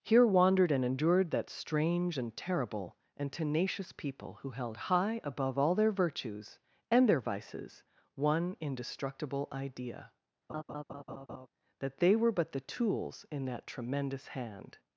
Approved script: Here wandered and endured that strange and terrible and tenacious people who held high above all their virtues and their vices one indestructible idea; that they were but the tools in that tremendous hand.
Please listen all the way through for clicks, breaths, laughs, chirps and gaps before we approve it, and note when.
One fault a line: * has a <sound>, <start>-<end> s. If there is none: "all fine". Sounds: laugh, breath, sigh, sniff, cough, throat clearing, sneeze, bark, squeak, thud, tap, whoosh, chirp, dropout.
* has a laugh, 10.5-11.5 s